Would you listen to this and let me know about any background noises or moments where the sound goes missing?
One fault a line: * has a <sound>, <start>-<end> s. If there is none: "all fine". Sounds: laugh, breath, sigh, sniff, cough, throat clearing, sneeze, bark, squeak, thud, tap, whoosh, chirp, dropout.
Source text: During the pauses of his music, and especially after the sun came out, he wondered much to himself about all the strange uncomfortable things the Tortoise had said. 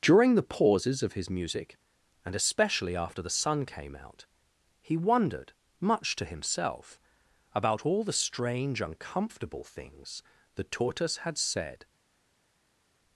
all fine